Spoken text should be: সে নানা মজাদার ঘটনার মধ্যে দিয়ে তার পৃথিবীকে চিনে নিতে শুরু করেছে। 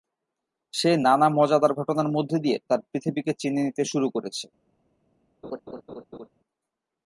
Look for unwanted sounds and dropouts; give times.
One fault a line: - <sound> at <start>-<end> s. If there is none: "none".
- laugh at 5.4-6.3 s